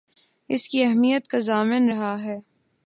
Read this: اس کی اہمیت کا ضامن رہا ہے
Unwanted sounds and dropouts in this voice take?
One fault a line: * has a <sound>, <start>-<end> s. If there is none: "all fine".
all fine